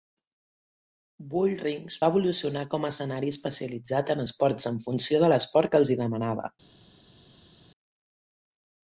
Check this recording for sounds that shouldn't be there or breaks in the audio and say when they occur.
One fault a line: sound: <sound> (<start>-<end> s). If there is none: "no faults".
no faults